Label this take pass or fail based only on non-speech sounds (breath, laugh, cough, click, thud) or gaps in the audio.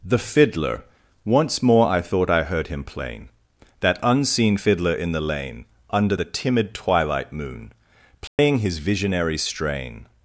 fail